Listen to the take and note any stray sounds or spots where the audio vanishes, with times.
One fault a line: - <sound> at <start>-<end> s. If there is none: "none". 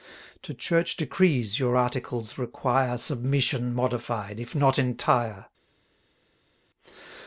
none